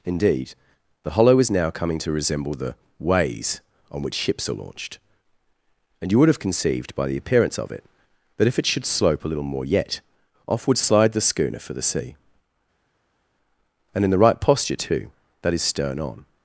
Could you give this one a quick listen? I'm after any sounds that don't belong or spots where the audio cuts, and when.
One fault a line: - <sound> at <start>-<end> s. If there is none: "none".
none